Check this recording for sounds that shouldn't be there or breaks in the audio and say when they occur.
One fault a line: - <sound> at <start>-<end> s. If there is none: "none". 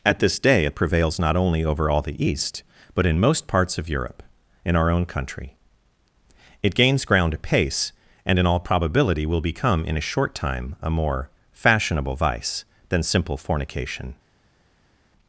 none